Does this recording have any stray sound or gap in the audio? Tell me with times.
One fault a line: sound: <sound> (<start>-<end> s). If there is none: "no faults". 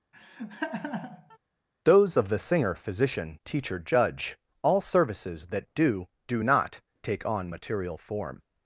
sound: laugh (0.1-1.4 s)